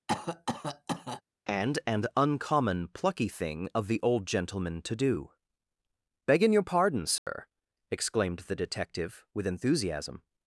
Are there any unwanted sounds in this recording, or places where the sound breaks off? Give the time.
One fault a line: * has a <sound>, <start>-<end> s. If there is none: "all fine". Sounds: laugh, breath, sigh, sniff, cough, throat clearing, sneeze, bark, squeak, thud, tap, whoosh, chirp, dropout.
* has a cough, 0.1-1.2 s
* has a dropout, 7.2-7.3 s